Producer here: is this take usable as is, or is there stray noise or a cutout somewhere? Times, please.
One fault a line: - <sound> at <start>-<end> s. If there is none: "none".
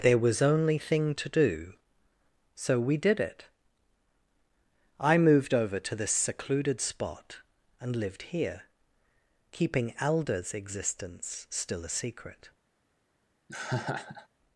- laugh at 13.5-14.3 s